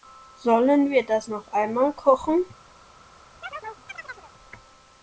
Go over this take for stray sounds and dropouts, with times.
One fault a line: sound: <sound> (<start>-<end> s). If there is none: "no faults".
sound: chirp (3.4-4.3 s)